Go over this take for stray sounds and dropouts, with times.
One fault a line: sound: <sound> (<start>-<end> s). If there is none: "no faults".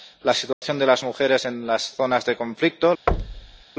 sound: dropout (0.5-0.6 s)
sound: thud (3.1-3.6 s)